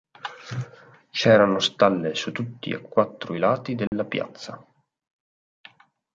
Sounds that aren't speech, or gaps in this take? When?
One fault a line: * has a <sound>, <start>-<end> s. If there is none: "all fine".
* has a dropout, 3.9-3.9 s